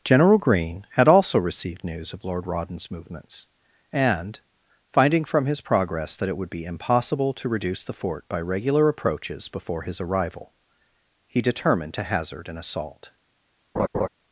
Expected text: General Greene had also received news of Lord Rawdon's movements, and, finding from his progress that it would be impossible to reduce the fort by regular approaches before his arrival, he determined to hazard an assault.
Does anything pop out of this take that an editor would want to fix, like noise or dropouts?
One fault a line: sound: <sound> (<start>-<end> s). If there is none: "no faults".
sound: laugh (13.8-14.1 s)